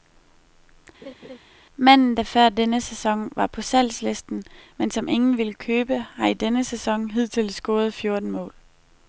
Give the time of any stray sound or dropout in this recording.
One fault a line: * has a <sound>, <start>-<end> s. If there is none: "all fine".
* has a laugh, 1.0-1.4 s